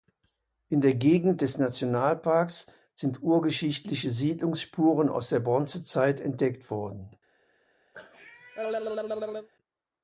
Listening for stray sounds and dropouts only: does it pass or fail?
fail